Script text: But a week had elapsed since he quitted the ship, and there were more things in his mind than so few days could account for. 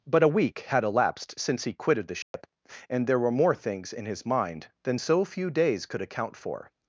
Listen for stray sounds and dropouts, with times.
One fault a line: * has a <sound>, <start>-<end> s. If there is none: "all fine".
* has a dropout, 2.2-2.3 s